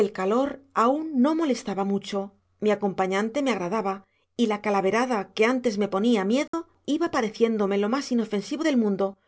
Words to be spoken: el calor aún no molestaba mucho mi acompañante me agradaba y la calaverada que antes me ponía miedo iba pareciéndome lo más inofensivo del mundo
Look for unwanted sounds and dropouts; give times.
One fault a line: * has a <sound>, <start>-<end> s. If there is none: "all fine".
* has a dropout, 6.5-6.5 s